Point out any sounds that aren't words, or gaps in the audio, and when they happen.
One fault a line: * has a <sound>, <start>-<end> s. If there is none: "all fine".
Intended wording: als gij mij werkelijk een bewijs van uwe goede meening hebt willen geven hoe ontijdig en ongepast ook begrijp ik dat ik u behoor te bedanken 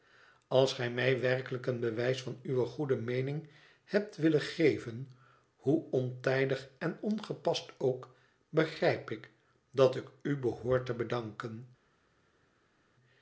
all fine